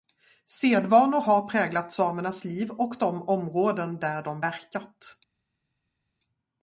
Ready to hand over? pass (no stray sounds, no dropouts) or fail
pass